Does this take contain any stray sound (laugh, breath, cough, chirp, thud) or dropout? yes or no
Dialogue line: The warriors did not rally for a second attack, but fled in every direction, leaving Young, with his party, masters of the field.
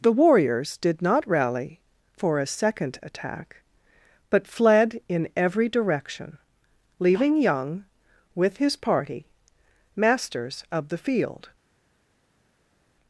no